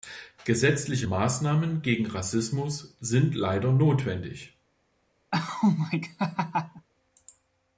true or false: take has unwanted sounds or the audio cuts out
true